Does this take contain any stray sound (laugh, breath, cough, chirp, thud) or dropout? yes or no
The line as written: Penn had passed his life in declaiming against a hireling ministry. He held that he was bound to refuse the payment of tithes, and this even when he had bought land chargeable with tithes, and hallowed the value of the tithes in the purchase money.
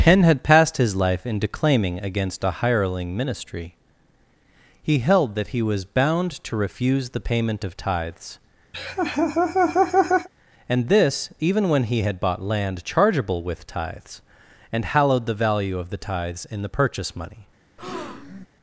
yes